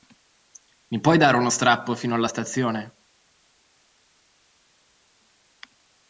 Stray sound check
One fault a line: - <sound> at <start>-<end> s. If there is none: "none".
none